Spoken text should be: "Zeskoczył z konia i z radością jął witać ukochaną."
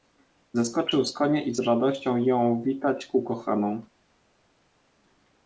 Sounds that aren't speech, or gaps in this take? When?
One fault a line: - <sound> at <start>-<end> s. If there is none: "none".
none